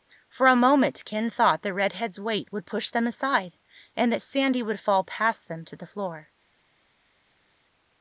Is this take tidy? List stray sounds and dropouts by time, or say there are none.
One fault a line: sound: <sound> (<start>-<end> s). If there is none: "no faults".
no faults